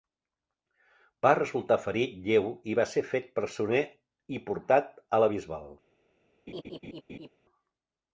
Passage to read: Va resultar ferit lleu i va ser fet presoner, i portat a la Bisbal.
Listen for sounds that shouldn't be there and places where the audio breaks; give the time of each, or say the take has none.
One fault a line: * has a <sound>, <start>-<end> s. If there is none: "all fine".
* has a laugh, 6.5-7.3 s